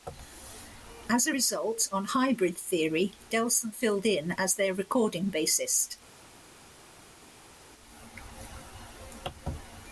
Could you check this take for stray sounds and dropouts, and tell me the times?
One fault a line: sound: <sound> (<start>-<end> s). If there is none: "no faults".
no faults